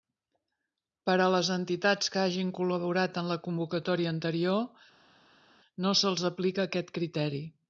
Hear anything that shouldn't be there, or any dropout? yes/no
no